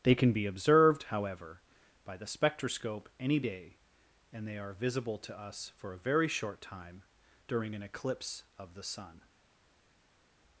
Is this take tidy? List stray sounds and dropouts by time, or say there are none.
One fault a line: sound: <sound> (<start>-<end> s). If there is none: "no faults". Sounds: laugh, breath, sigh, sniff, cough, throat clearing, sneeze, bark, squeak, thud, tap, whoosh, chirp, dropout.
no faults